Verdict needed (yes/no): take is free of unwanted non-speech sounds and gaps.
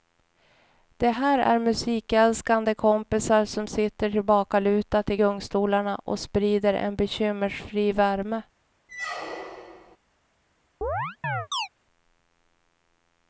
no